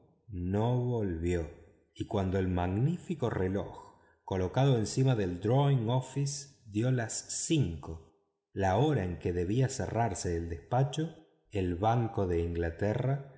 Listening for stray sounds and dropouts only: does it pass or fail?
pass